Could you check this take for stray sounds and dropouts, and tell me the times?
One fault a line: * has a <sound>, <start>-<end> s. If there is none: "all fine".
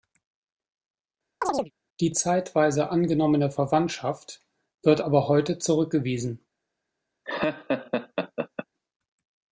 * has a chirp, 1.4-1.7 s
* has a laugh, 7.2-8.7 s